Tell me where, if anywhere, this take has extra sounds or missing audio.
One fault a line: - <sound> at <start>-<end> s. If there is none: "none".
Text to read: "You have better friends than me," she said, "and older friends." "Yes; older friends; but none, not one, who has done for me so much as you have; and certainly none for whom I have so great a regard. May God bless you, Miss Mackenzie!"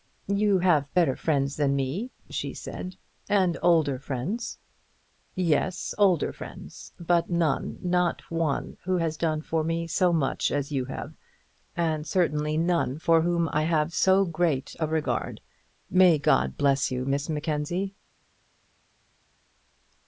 none